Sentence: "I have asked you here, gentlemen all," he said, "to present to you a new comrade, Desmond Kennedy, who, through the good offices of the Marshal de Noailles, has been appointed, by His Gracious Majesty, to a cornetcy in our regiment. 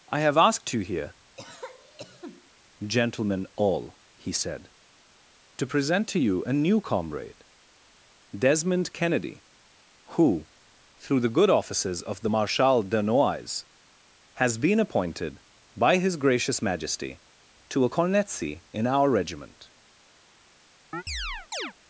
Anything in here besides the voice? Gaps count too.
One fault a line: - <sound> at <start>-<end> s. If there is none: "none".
- cough at 1.4-2.5 s
- chirp at 20.9-21.7 s